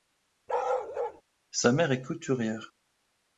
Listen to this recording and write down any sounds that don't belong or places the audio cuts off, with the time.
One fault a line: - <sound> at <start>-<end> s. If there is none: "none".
- bark at 0.5-1.2 s